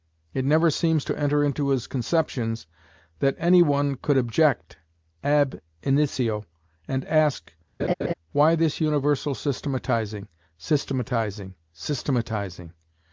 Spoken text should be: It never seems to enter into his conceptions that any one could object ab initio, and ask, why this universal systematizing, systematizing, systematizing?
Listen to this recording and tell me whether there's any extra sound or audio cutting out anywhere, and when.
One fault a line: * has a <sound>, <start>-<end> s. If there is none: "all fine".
* has a laugh, 7.8-8.1 s